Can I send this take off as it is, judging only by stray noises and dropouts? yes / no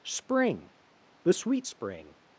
yes